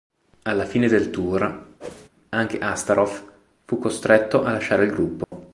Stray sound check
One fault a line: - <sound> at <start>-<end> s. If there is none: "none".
- whoosh at 1.8-2.1 s
- dropout at 5.2-5.3 s